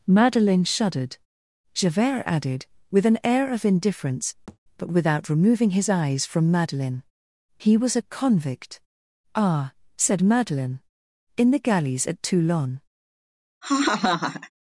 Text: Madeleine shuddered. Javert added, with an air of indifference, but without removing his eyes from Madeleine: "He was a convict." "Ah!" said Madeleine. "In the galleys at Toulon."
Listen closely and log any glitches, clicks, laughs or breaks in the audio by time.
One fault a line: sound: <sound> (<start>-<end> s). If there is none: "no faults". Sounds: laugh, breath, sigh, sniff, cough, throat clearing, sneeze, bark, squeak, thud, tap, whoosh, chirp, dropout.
sound: thud (4.5-4.6 s)
sound: laugh (13.6-14.5 s)